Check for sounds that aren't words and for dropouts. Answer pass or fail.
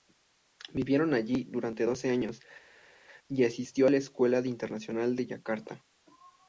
pass